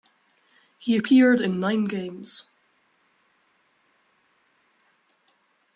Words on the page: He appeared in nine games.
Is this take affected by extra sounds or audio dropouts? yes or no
no